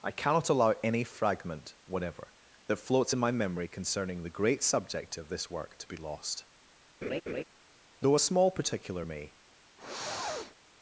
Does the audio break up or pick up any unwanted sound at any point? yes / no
yes